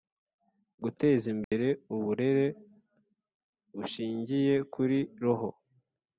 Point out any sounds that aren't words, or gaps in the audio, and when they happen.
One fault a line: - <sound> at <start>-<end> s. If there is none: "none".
- dropout at 1.4-1.5 s